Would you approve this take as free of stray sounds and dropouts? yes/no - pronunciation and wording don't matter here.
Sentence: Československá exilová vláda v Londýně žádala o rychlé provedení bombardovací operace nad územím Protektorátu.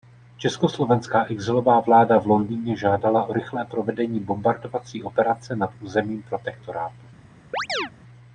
no